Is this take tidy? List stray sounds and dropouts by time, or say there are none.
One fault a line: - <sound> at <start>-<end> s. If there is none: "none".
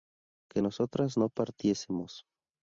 none